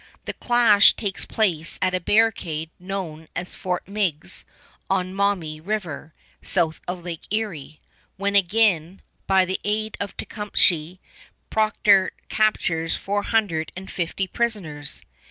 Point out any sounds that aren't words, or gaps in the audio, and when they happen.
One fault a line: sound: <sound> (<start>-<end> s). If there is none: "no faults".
no faults